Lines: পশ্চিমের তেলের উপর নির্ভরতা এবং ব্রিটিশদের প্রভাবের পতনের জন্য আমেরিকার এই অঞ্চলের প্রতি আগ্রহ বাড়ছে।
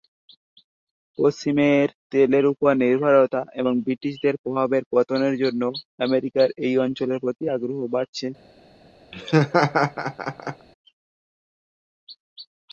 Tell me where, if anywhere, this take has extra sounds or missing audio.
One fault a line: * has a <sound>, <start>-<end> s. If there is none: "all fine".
* has a laugh, 9.1-10.7 s